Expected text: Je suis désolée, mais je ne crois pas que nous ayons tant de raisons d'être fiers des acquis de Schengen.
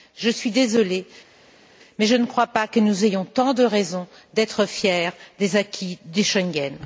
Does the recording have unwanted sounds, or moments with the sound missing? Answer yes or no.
no